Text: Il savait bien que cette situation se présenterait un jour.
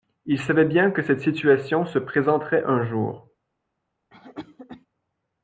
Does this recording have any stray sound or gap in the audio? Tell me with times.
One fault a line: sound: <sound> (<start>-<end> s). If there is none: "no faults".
sound: cough (4.1-4.9 s)